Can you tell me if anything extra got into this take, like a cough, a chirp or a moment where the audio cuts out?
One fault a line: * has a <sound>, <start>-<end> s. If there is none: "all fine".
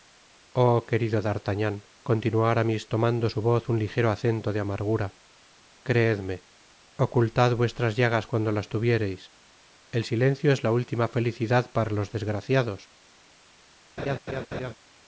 * has a laugh, 14.0-14.7 s